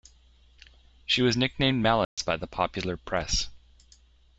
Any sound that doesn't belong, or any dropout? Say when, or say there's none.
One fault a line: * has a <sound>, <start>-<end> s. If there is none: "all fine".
* has a dropout, 2.0-2.2 s